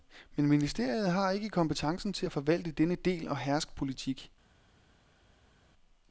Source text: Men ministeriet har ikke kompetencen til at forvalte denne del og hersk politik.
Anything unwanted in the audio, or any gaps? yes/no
no